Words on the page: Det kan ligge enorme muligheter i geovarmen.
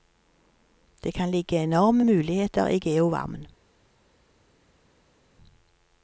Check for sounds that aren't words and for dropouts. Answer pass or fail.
pass